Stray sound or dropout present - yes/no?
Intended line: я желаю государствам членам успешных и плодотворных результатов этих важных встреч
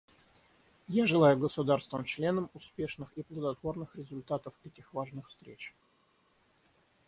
no